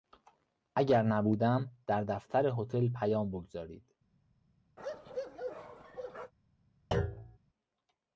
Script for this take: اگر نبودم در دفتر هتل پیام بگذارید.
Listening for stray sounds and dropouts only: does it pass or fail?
fail